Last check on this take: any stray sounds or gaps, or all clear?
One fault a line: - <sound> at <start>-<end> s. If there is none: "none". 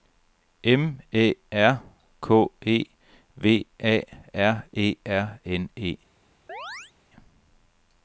- chirp at 6.5-6.9 s